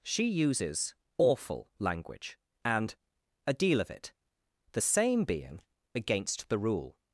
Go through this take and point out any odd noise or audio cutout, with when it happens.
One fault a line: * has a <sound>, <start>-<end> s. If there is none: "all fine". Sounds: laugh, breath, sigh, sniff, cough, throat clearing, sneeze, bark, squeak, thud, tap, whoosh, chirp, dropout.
all fine